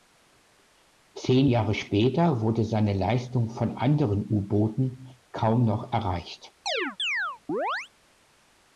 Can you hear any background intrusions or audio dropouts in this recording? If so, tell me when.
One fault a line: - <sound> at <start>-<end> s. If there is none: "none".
- chirp at 6.7-7.9 s